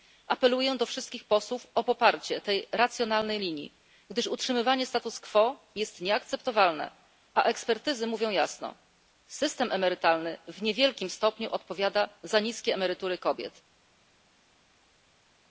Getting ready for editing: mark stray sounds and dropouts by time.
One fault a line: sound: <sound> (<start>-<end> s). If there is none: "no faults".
no faults